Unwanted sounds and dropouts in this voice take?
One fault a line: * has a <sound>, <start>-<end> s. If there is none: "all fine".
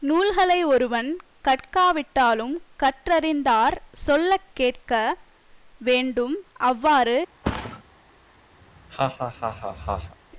* has a thud, 7.4-7.8 s
* has a laugh, 8.6-10.2 s